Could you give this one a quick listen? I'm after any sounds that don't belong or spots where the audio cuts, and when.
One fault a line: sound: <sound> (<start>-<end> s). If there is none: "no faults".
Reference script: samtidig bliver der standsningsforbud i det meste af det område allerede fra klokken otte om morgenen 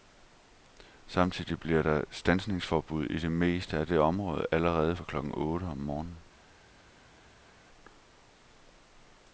no faults